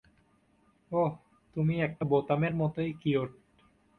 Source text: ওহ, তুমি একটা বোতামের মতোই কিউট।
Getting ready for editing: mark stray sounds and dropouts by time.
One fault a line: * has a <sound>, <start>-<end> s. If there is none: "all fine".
all fine